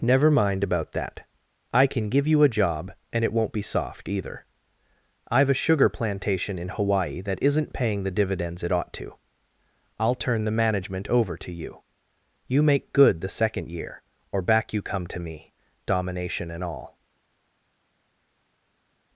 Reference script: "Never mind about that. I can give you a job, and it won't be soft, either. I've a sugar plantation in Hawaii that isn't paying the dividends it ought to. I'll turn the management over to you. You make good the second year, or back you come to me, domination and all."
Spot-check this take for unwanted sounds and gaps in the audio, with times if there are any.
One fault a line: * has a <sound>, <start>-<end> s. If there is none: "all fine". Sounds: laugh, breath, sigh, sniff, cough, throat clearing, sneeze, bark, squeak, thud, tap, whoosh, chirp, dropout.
all fine